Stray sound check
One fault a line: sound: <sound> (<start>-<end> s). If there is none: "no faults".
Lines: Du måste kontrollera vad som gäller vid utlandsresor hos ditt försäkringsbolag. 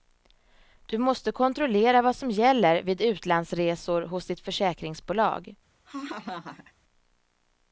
sound: laugh (5.8-6.7 s)